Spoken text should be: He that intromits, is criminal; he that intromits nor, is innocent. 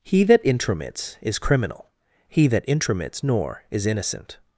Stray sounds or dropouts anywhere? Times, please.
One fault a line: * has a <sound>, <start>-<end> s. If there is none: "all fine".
all fine